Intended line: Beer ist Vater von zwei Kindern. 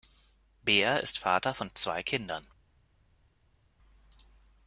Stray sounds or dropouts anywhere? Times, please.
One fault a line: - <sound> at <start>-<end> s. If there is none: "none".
none